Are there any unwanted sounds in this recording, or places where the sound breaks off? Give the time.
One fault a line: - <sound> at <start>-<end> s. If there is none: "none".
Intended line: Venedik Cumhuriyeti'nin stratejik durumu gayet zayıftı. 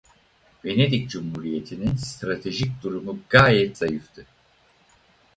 none